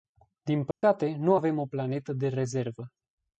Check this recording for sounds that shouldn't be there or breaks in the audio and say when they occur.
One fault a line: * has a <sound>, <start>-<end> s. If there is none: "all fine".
* has a dropout, 0.7-0.8 s